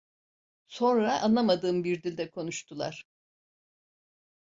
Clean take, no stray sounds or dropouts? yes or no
yes